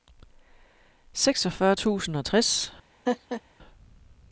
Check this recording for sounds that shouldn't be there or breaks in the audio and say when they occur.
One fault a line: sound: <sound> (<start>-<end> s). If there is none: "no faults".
sound: laugh (3.1-3.4 s)